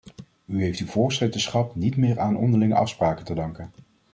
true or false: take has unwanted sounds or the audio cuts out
false